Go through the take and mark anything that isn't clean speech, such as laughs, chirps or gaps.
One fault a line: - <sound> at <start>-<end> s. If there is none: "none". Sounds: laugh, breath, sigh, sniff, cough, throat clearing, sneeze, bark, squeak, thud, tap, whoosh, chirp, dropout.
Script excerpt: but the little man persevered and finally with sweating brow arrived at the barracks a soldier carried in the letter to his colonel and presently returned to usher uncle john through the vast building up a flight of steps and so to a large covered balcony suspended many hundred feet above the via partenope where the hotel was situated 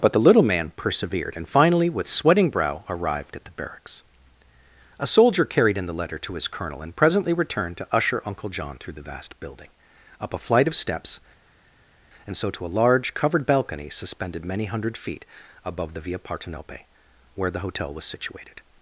none